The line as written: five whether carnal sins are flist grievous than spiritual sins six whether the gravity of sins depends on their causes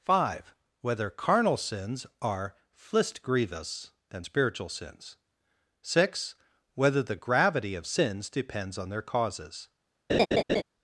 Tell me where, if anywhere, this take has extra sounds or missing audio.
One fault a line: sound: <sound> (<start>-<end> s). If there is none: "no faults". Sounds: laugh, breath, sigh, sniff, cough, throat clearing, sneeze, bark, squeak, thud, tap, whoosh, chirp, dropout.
sound: laugh (10.1-10.6 s)